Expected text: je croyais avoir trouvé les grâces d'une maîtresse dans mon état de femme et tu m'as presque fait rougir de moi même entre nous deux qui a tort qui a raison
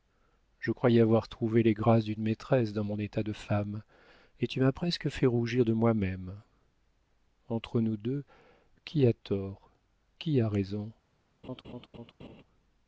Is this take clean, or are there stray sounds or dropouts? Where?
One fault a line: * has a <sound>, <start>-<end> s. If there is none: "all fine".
* has a laugh, 11.4-12.4 s